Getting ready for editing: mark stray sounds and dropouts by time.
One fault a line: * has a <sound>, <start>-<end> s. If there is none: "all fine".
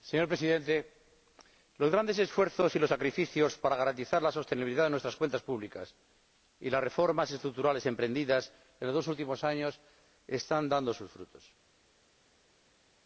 all fine